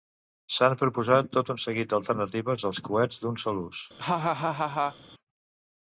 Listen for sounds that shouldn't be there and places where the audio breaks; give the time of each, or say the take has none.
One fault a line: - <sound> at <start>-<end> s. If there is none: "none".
- laugh at 4.0-5.0 s